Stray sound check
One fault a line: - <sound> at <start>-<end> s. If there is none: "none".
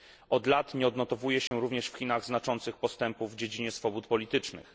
- dropout at 1.5-1.5 s